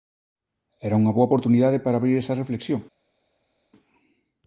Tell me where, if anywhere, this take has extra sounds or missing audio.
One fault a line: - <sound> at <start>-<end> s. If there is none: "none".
none